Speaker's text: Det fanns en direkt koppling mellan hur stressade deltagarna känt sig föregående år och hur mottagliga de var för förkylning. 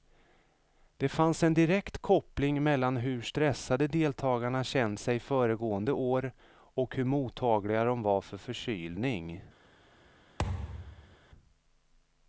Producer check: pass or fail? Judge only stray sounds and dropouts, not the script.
fail